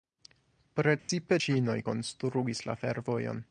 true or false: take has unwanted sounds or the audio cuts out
true